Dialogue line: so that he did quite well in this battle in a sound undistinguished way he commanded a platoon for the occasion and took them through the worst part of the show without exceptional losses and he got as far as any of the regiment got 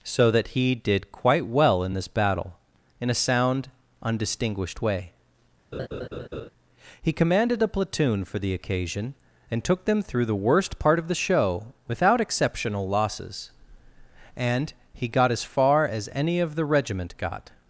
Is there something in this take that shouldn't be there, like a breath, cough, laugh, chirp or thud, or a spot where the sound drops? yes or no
yes